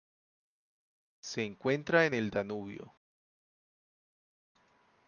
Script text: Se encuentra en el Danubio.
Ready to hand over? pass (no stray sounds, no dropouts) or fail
pass